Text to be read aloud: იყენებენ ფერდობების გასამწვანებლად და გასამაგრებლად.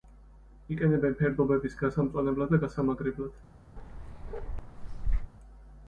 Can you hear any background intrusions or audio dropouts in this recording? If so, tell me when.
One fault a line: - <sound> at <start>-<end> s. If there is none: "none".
- bark at 3.8-5.3 s